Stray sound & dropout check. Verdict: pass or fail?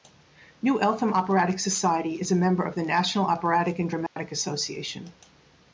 fail